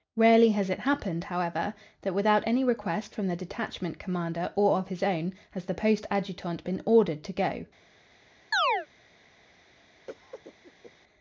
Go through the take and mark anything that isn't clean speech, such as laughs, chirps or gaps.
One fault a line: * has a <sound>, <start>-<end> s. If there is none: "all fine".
* has a chirp, 8.5-8.9 s
* has a cough, 10.1-10.9 s